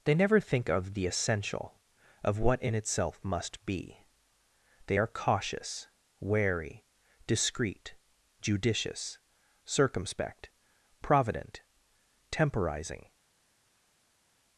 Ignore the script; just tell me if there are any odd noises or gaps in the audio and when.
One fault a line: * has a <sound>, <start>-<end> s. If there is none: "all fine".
all fine